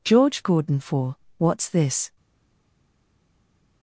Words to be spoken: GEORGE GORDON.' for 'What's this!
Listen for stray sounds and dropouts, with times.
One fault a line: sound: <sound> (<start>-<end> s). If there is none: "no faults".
no faults